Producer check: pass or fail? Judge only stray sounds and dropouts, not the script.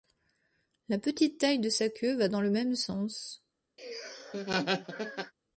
fail